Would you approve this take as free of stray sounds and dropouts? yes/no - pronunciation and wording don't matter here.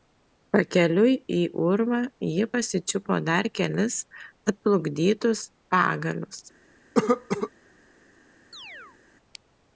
no